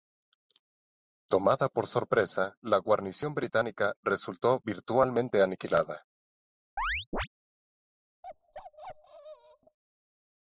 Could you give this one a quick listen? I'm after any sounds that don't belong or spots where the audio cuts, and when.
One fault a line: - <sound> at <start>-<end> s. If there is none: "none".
- chirp at 6.8-7.3 s
- bark at 8.2-9.8 s